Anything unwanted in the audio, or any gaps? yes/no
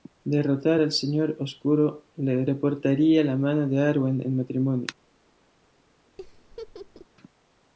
yes